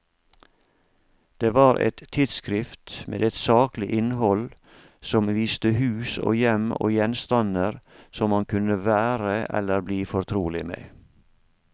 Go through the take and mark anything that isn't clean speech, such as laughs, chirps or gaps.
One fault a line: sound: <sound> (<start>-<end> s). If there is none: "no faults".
no faults